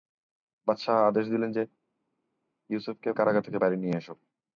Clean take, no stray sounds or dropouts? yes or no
yes